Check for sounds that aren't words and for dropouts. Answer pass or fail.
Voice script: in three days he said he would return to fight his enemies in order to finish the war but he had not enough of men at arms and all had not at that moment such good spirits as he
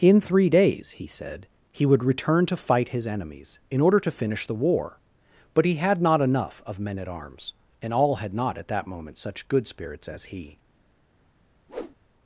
fail